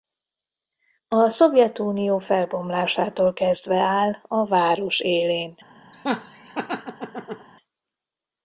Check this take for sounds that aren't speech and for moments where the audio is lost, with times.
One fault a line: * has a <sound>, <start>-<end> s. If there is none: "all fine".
* has a laugh, 5.9-7.5 s